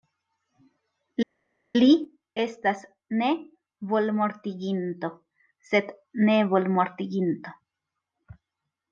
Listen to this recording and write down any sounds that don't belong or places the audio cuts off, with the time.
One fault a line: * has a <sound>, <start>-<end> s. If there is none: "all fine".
all fine